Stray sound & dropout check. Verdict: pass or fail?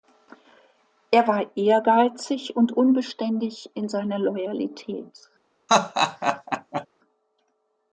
fail